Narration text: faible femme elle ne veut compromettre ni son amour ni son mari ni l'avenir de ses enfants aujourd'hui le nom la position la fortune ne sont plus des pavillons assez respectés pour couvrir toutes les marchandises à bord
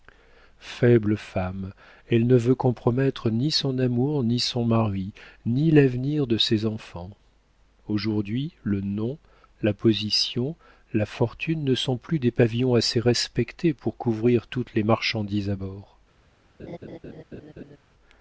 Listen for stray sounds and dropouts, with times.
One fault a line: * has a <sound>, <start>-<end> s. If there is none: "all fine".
* has a laugh, 16.6-17.8 s